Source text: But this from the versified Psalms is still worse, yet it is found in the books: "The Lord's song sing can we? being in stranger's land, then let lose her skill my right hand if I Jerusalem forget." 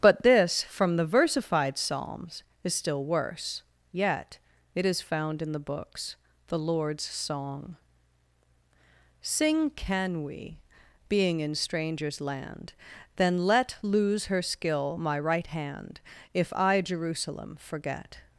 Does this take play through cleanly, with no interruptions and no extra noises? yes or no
yes